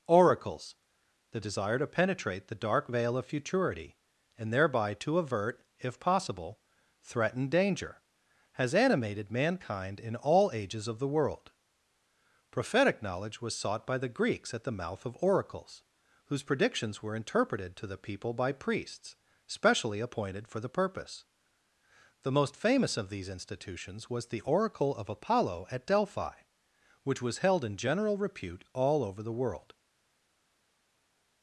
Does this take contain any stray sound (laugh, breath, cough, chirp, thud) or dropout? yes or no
no